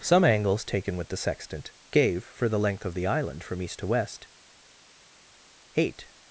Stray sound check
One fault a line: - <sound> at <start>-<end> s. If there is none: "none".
none